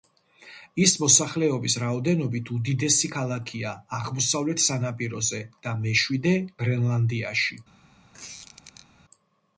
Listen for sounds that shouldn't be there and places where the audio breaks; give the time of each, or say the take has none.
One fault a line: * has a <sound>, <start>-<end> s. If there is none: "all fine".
* has a squeak, 8.1-8.9 s